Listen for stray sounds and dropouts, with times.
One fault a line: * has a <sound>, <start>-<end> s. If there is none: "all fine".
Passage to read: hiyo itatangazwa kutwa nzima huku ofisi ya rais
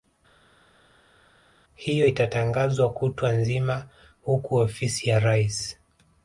all fine